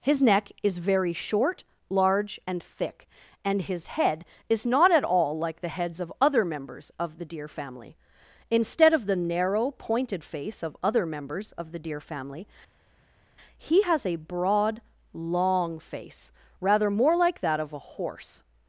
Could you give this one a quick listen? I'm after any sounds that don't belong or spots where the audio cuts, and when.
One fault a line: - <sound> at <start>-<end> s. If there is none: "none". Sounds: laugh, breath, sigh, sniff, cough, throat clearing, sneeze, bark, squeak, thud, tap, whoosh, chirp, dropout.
none